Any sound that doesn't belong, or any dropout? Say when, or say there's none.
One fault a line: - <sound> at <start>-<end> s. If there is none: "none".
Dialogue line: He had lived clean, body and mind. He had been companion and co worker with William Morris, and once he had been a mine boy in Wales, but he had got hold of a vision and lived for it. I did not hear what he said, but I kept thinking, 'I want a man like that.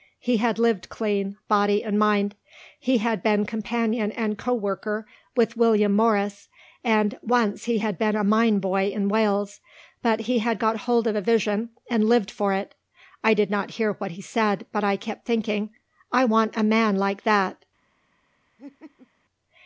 - laugh at 18.6-19.1 s